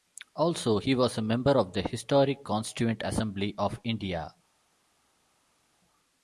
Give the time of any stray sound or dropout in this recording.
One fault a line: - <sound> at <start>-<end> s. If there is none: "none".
none